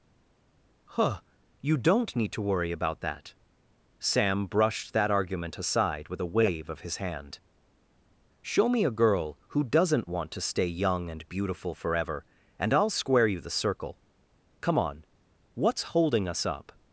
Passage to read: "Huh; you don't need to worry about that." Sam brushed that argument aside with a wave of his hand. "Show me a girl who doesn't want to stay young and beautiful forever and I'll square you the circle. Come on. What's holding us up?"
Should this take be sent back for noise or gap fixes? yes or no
no